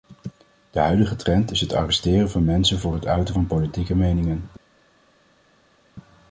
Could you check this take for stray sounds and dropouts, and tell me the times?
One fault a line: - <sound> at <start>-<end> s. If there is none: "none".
none